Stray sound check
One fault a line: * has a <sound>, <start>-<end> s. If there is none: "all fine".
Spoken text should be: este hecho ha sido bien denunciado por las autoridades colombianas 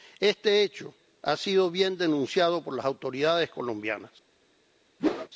* has a whoosh, 5.0-5.3 s